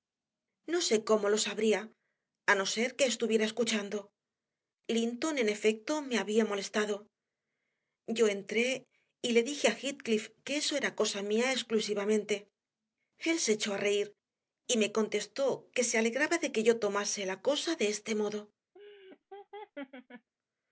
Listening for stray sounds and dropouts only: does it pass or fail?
fail